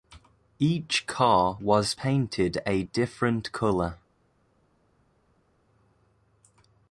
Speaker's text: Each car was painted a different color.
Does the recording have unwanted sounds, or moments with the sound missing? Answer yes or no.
no